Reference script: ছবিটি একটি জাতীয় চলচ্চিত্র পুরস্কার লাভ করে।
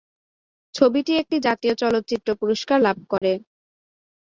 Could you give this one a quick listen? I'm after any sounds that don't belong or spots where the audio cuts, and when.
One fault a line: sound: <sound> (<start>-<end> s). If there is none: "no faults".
sound: dropout (3.2-3.2 s)